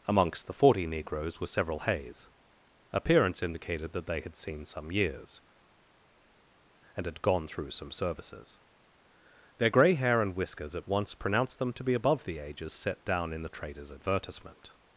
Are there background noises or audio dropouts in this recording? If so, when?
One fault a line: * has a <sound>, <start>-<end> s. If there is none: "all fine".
all fine